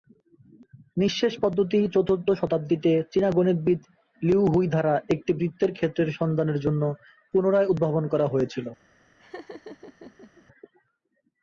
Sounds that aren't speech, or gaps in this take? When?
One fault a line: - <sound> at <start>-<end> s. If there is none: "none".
- laugh at 9.2-10.5 s